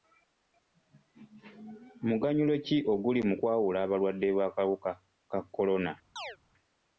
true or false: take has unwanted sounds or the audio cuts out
true